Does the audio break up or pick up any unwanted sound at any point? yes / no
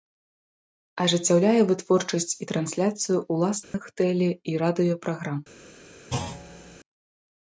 yes